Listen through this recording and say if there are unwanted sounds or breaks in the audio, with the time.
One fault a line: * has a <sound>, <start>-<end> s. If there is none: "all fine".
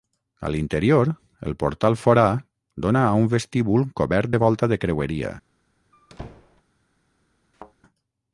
* has a squeak, 5.9-6.6 s
* has a thud, 7.5-7.7 s